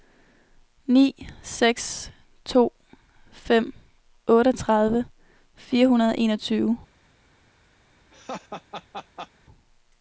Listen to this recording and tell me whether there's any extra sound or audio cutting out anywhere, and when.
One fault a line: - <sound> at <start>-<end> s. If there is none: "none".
- laugh at 8.1-9.3 s